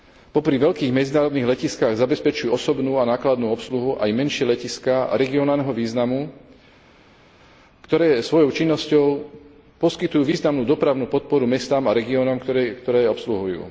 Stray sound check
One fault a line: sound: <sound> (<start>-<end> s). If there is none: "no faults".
no faults